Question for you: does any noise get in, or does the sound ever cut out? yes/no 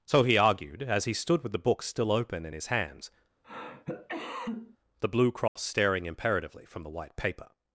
yes